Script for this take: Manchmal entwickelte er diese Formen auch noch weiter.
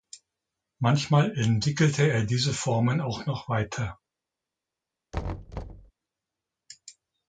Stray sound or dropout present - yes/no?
yes